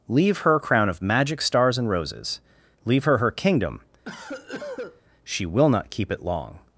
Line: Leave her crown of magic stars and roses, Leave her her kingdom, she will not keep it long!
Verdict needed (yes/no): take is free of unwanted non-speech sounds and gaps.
no